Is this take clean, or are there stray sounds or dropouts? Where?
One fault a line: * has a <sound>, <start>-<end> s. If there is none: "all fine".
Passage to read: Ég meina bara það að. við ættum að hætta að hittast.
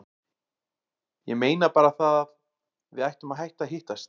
all fine